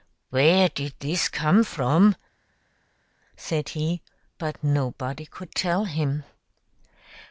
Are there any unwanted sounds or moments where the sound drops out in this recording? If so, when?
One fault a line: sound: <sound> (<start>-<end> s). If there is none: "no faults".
no faults